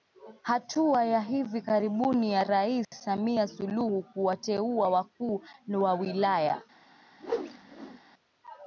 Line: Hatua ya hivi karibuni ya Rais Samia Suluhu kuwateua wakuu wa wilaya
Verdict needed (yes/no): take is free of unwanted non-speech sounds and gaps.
no